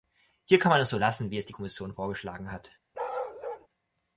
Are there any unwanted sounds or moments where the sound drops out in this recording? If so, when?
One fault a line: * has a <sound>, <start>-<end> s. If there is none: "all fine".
* has a bark, 2.9-3.7 s